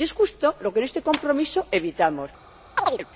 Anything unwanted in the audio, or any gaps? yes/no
yes